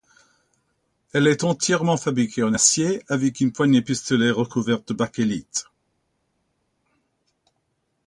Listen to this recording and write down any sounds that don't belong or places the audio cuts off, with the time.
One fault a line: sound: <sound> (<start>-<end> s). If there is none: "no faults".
no faults